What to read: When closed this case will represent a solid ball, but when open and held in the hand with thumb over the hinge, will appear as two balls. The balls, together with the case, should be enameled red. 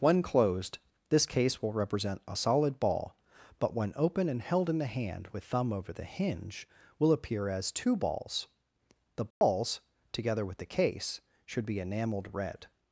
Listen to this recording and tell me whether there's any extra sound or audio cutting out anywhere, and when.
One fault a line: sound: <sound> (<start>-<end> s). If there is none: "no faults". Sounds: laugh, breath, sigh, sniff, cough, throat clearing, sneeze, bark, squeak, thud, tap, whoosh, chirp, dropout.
sound: dropout (9.3-9.4 s)